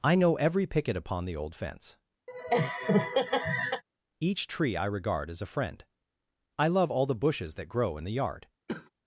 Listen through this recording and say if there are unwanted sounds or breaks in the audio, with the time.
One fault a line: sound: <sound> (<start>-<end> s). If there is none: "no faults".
sound: laugh (2.3-3.8 s)
sound: cough (8.7-8.9 s)